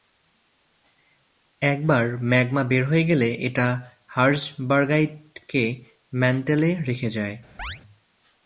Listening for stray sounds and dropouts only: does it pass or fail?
fail